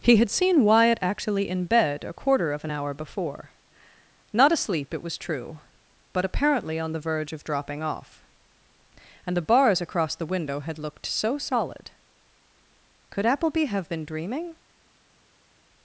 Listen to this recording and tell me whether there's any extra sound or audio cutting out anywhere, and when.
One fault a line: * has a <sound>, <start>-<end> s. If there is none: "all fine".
all fine